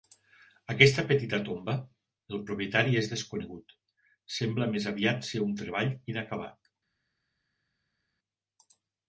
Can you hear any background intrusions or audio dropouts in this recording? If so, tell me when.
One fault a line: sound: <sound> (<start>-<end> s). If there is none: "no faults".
no faults